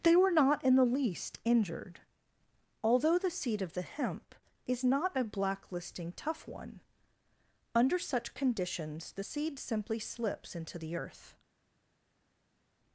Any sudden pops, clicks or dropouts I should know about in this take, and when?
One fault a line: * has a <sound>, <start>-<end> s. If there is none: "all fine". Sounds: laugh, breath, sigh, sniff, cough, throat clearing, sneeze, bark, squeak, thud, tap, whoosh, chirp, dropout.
all fine